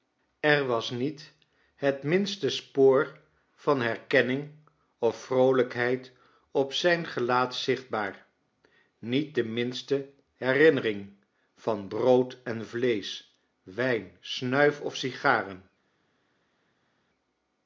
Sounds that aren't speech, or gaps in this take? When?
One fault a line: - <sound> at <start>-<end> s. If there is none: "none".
none